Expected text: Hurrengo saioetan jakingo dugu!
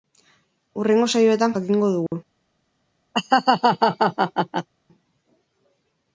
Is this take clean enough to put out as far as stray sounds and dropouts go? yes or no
no